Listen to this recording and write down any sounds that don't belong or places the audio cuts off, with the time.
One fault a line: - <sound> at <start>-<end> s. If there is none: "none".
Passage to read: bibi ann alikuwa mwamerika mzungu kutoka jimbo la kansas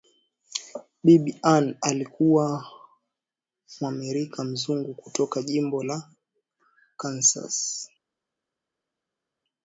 none